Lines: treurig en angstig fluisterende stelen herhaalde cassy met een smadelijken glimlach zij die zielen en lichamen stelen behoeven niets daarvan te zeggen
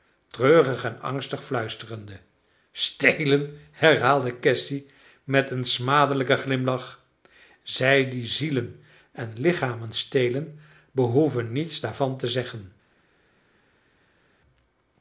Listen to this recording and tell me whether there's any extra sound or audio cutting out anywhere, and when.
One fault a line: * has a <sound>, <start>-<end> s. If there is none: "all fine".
all fine